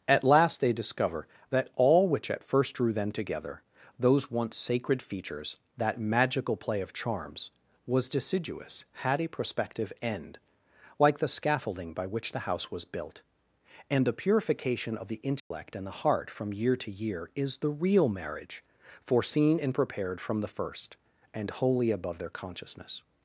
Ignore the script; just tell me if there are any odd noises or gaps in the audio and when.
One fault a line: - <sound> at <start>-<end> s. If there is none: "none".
- dropout at 15.4-15.5 s